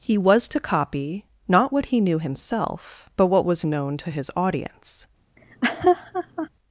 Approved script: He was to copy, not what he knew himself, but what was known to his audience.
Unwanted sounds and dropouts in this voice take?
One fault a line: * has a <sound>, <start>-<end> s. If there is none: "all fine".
* has a laugh, 5.4-6.5 s